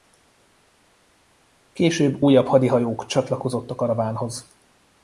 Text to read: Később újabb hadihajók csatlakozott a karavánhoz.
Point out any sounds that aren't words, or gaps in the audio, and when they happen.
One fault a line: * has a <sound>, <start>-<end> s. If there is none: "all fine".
all fine